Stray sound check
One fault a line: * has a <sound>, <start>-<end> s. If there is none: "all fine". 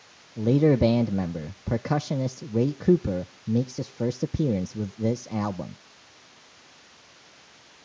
all fine